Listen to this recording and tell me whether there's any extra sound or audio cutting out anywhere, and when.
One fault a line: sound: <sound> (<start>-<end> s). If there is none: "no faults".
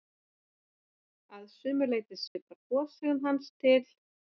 sound: dropout (2.3-2.4 s)